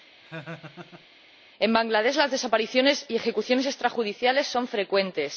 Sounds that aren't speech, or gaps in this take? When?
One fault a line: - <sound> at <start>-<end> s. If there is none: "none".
- laugh at 0.2-1.1 s